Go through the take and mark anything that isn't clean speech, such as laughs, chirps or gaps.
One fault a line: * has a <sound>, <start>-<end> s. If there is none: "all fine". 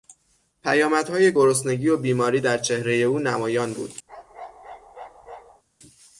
* has a bark, 4.1-5.6 s